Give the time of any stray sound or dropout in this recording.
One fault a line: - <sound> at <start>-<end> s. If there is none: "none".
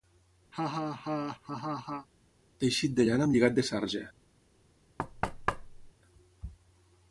- laugh at 0.5-2.1 s
- thud at 5.0-5.9 s